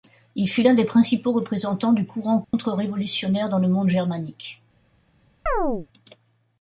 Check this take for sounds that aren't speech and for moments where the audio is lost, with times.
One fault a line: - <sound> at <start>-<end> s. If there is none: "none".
- dropout at 2.4-2.5 s
- chirp at 5.5-5.9 s